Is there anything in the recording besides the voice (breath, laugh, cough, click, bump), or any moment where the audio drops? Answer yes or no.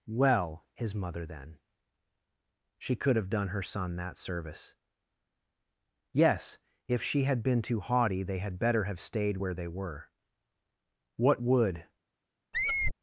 yes